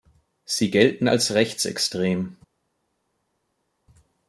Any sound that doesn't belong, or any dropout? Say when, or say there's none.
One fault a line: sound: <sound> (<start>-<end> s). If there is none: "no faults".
no faults